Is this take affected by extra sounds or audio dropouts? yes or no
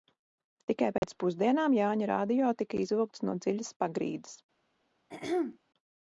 yes